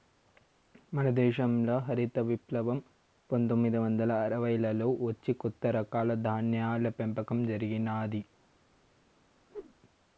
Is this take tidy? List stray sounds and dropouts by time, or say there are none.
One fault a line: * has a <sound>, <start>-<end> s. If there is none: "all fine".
* has a whoosh, 9.5-9.7 s